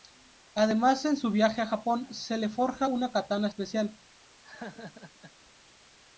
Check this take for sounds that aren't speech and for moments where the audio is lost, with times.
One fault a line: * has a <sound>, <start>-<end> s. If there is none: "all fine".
* has a laugh, 4.4-5.3 s